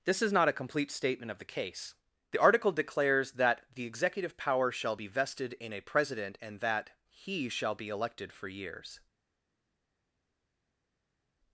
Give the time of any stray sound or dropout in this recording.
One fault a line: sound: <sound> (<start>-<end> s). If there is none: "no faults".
no faults